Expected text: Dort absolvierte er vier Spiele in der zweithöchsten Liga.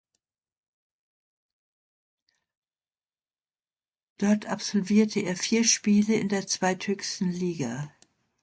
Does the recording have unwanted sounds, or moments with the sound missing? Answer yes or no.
no